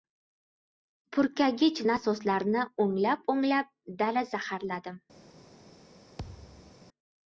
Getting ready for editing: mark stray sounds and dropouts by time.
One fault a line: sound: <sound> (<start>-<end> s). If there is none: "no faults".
sound: thud (6.2-6.8 s)